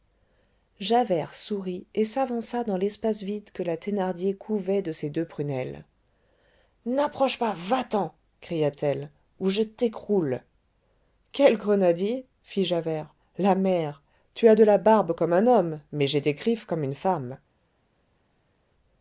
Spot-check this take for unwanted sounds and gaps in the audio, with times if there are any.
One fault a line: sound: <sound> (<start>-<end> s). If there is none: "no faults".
no faults